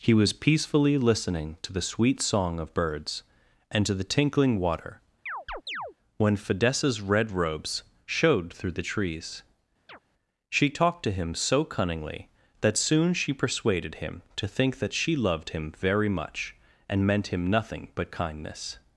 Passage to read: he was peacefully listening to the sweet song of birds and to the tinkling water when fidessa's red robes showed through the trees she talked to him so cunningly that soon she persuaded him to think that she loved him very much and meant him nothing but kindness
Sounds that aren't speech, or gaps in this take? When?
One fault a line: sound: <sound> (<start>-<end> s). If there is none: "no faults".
sound: chirp (5.3-5.9 s)
sound: chirp (9.9-10.0 s)